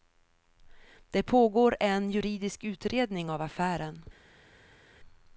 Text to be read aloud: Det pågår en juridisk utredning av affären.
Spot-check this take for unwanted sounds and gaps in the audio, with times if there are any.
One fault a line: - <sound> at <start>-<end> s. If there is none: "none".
none